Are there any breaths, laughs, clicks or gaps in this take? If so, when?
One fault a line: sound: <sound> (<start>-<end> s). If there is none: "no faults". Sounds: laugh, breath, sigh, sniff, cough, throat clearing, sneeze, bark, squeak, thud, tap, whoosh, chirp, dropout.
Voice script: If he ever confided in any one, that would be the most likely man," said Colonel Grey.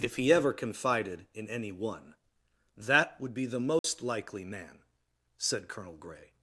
sound: dropout (3.8-3.8 s)